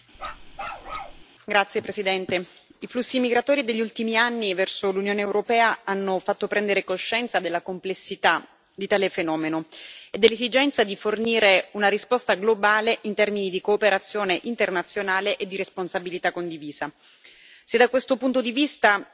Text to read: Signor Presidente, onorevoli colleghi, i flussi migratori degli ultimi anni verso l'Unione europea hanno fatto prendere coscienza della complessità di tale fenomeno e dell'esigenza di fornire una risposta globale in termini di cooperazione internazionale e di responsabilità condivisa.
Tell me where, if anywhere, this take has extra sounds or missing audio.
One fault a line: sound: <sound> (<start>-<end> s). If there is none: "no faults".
sound: bark (0.1-1.2 s)